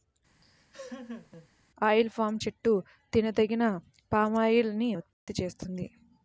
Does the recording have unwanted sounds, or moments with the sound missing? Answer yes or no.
yes